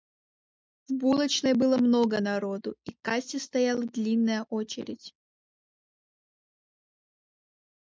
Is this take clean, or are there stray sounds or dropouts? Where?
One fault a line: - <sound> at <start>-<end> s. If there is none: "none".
none